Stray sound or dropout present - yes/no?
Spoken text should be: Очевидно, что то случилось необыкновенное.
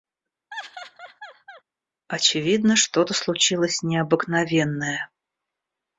yes